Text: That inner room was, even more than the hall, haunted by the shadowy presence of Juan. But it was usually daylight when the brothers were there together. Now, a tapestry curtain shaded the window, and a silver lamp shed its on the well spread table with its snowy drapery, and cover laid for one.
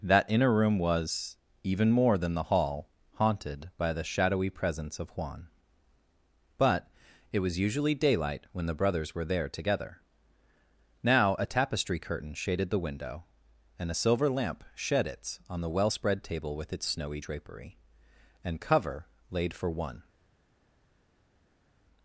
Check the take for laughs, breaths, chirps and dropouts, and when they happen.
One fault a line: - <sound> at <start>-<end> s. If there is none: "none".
none